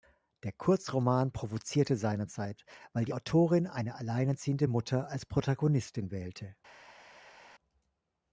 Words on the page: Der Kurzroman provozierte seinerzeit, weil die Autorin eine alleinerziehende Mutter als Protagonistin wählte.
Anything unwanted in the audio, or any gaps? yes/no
no